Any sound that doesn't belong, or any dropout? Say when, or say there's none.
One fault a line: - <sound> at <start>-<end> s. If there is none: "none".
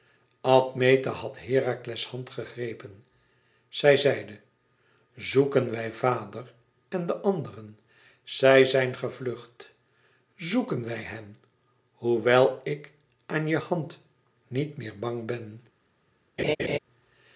- laugh at 16.4-16.8 s